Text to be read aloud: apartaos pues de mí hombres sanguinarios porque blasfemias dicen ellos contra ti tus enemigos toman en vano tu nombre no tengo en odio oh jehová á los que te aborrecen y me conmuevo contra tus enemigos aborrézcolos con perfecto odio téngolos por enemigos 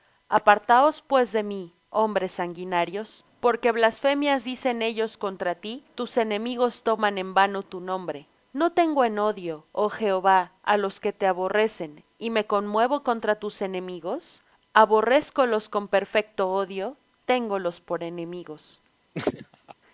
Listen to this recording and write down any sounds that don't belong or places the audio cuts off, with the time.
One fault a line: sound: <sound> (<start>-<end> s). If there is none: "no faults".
sound: laugh (19.1-19.7 s)